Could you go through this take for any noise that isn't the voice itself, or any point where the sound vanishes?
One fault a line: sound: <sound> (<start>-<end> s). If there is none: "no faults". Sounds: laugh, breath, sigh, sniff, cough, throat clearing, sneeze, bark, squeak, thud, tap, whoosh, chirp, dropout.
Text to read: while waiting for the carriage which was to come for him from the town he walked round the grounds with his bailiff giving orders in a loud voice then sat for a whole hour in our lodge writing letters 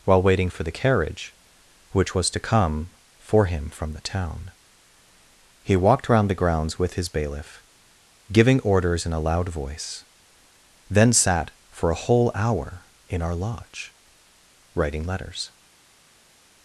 no faults